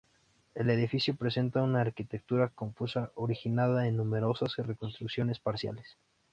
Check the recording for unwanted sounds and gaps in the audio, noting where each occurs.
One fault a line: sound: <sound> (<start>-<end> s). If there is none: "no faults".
no faults